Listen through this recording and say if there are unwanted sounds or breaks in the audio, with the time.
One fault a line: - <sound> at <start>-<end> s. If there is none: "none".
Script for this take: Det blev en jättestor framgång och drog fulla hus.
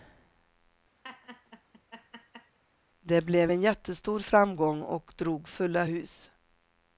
- laugh at 1.0-2.6 s